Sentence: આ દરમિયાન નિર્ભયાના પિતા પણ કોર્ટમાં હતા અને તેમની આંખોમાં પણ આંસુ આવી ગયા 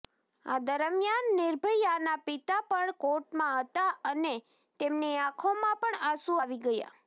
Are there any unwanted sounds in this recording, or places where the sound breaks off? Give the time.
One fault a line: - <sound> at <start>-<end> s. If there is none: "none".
none